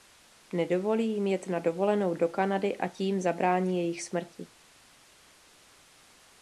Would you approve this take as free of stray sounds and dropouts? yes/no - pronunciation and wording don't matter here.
yes